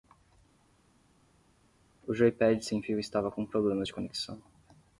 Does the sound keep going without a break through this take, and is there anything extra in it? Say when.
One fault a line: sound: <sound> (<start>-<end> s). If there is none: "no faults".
no faults